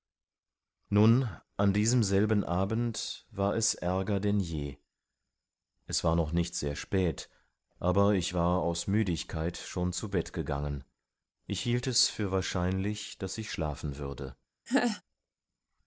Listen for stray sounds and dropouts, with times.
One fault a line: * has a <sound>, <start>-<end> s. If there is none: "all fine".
* has a laugh, 14.7-15.0 s